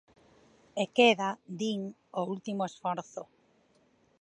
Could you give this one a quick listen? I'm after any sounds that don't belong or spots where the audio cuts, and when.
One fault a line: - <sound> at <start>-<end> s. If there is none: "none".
none